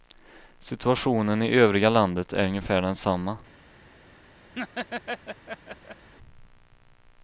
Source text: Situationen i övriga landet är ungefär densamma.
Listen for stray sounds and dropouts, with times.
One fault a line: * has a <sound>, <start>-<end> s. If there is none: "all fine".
* has a laugh, 4.5-6.1 s